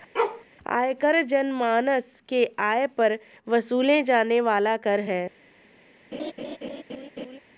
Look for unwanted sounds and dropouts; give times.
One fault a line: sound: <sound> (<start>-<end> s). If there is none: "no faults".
sound: bark (0.1-0.4 s)
sound: laugh (6.1-7.4 s)